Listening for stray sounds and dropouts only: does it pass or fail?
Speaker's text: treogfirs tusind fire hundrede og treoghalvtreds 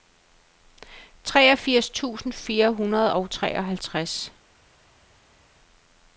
pass